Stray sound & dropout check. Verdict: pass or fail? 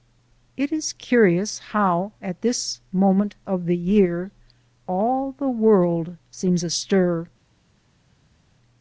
pass